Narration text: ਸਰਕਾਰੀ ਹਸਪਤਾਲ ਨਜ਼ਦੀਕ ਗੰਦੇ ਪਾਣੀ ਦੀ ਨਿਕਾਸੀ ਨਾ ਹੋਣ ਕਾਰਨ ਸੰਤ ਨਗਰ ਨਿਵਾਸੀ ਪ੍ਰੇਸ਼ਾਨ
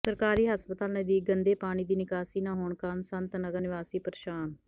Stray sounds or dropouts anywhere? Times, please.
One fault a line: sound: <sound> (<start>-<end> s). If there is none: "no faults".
no faults